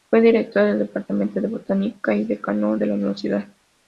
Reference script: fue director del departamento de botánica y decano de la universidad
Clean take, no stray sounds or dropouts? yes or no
yes